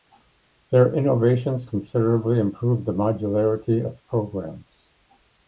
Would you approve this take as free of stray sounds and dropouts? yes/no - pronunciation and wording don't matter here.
yes